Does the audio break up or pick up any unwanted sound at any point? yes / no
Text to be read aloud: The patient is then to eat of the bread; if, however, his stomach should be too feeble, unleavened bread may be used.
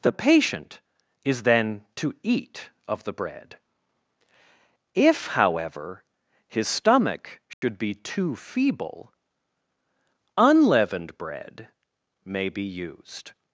yes